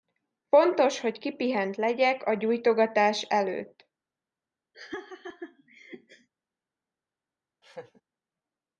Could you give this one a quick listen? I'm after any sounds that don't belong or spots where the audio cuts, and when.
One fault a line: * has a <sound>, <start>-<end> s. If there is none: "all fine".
* has a laugh, 4.7-6.3 s
* has a laugh, 7.6-8.0 s